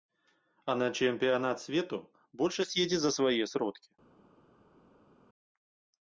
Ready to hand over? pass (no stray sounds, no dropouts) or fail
pass